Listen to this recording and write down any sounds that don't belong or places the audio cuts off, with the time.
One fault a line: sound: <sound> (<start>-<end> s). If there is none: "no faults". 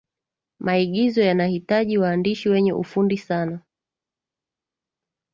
no faults